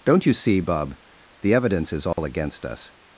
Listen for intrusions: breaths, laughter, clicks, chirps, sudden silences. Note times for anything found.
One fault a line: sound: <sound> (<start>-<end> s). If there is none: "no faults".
sound: dropout (2.1-2.2 s)